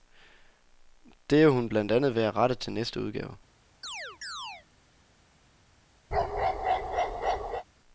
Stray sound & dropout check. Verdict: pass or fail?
fail